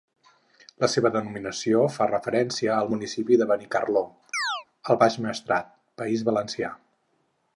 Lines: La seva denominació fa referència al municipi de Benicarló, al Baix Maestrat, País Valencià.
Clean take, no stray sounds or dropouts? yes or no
no